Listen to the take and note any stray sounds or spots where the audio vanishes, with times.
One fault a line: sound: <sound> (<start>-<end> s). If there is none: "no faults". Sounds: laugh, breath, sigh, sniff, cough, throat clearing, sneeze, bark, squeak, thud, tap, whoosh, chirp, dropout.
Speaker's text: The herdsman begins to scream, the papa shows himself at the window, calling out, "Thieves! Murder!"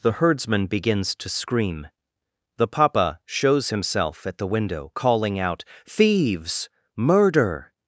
no faults